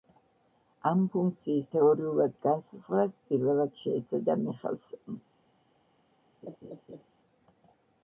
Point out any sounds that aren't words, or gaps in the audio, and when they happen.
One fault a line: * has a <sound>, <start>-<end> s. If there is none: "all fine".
* has a laugh, 6.4-7.0 s